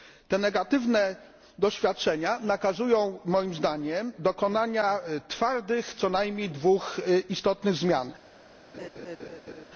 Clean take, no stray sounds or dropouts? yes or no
no